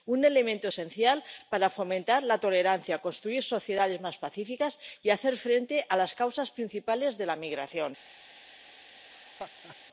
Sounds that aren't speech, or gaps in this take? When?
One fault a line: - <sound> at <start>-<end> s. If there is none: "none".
- laugh at 9.1-9.8 s